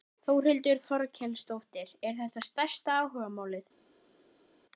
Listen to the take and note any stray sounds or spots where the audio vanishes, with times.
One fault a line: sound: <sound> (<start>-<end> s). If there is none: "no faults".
no faults